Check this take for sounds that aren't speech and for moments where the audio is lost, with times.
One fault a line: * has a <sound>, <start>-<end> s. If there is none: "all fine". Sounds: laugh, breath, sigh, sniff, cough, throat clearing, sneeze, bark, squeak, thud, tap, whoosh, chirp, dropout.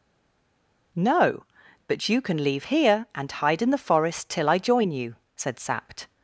all fine